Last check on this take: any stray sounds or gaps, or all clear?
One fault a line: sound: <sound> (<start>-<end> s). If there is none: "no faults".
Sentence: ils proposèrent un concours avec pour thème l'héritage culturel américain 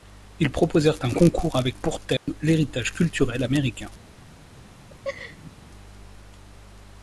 sound: dropout (2.2-2.3 s)
sound: laugh (4.9-5.5 s)